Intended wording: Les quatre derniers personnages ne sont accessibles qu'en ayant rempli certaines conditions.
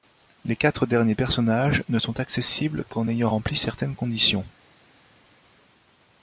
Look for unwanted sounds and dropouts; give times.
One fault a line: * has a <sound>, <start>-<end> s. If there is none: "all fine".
all fine